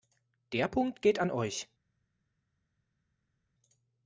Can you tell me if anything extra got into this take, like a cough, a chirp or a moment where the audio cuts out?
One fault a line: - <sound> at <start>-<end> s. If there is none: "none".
none